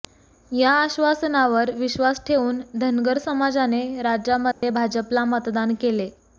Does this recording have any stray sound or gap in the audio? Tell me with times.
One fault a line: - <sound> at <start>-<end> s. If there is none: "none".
- dropout at 4.5-4.6 s